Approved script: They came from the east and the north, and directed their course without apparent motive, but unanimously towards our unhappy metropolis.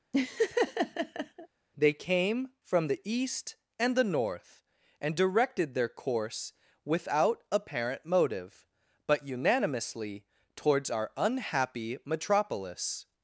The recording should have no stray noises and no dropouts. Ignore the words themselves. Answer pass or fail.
fail